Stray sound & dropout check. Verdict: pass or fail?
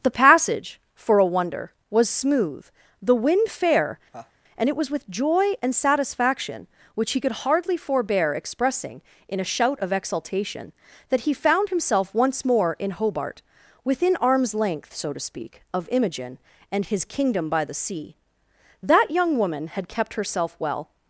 fail